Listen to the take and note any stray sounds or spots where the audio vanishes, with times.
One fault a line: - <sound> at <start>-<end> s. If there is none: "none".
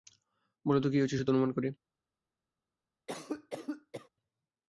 - cough at 3.1-4.1 s